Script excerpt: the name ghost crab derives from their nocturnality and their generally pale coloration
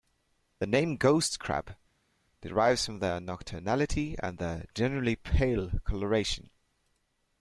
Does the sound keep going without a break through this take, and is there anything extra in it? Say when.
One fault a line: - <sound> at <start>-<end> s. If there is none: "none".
none